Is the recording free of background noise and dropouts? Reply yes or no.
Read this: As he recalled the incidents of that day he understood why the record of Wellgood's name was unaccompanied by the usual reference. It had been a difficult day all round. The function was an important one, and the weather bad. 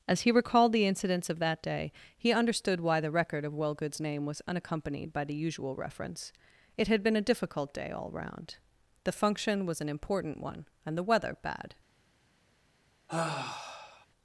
no